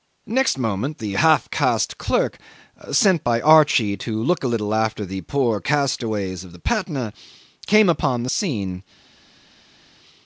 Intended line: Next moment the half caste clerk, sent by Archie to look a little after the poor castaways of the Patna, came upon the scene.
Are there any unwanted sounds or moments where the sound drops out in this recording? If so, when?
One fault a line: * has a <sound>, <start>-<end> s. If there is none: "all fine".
all fine